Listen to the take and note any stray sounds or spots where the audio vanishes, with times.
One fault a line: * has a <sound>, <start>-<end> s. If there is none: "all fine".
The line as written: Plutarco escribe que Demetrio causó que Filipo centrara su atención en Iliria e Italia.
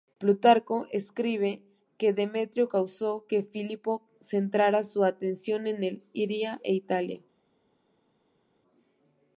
all fine